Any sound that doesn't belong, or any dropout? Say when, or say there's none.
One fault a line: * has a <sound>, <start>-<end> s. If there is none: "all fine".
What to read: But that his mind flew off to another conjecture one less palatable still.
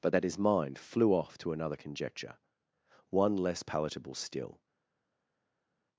all fine